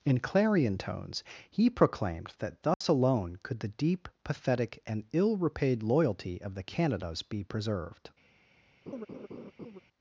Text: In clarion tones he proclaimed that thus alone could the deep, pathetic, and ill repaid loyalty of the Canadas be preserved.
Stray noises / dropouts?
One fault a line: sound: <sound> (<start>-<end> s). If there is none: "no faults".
sound: dropout (2.7-2.8 s)
sound: laugh (8.9-9.8 s)